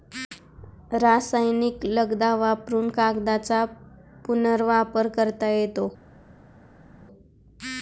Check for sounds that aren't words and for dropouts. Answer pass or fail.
pass